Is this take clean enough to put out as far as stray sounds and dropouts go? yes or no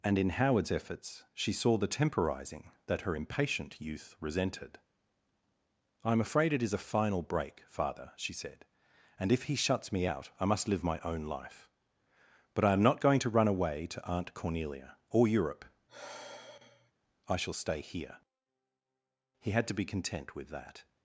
no